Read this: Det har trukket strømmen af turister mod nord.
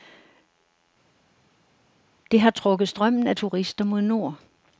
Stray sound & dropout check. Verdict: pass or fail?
pass